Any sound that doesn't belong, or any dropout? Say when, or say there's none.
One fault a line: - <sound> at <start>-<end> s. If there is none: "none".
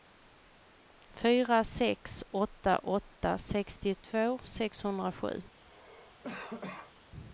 - cough at 5.7-6.9 s